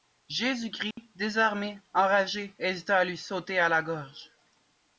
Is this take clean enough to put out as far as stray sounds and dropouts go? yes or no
no